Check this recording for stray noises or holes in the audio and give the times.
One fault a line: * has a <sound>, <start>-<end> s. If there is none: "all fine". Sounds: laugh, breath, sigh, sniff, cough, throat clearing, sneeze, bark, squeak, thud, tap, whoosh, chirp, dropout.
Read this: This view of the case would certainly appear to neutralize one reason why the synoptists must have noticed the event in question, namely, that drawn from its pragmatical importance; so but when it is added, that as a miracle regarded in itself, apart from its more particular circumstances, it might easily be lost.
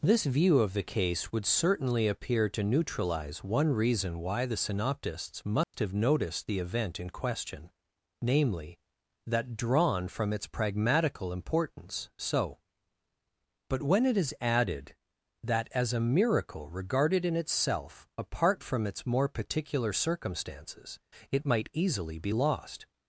* has a dropout, 5.6-5.7 s